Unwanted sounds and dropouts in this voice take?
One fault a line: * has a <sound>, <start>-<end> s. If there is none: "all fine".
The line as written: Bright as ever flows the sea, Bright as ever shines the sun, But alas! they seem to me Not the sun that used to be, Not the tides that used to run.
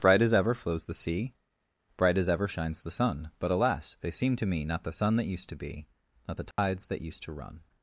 * has a dropout, 6.5-6.6 s